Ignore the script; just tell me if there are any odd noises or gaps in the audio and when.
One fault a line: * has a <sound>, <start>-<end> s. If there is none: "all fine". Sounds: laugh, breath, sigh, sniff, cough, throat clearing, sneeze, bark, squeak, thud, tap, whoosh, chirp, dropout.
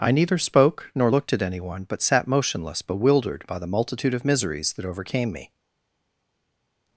all fine